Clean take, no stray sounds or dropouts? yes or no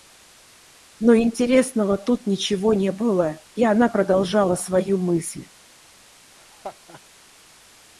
no